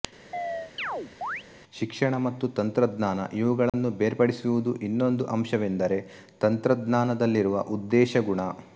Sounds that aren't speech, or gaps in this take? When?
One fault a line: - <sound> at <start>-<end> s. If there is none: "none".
- chirp at 0.3-1.4 s
- dropout at 3.7-3.7 s